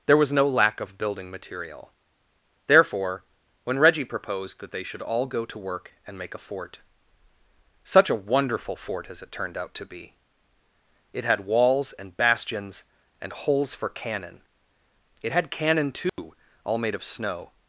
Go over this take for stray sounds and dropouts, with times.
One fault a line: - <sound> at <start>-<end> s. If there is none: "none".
- dropout at 16.1-16.2 s